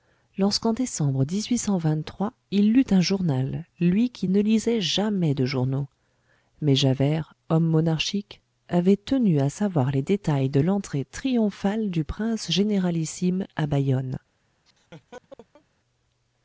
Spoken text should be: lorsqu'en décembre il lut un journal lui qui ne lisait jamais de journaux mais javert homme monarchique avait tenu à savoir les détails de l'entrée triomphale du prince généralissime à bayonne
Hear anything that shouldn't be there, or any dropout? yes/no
yes